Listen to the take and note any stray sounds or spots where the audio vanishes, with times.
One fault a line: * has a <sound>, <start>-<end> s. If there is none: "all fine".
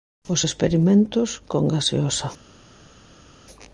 all fine